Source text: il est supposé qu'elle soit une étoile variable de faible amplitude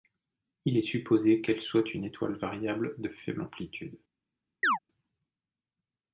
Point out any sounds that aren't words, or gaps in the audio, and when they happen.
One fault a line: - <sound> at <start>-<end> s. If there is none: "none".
- chirp at 4.6-4.8 s